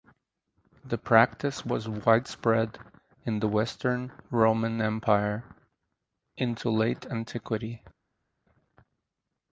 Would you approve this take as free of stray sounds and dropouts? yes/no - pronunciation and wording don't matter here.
yes